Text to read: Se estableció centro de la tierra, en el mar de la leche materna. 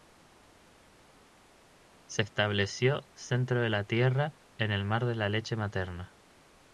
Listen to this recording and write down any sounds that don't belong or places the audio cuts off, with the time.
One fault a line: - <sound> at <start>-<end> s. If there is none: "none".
none